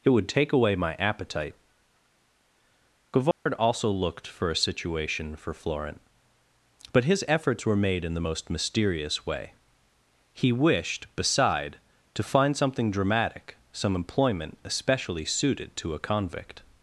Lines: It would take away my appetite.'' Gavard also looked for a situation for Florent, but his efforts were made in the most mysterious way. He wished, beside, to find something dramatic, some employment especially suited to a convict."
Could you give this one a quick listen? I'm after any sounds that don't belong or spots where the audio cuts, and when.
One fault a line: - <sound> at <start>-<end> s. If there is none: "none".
- dropout at 3.3-3.5 s